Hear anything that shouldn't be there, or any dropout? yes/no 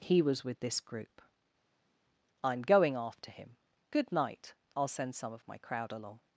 no